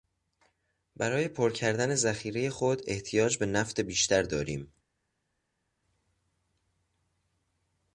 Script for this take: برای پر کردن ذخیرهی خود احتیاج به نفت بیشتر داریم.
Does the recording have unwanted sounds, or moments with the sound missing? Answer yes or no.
no